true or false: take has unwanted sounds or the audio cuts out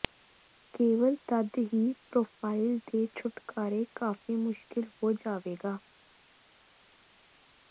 false